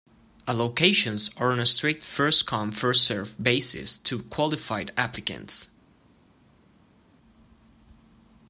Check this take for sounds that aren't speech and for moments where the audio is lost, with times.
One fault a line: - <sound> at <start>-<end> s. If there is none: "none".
none